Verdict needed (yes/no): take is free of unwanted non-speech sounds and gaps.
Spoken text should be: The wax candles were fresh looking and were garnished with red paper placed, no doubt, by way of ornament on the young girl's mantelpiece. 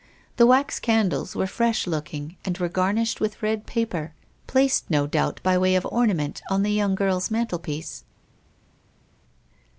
yes